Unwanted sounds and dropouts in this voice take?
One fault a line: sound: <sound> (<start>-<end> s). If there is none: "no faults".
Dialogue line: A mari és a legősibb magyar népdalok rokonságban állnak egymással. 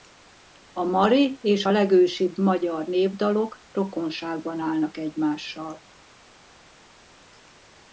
no faults